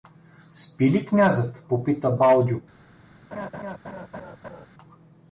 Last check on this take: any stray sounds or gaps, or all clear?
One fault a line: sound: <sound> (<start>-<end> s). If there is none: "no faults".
sound: laugh (3.3-4.7 s)